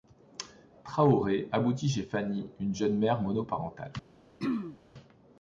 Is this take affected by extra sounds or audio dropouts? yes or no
yes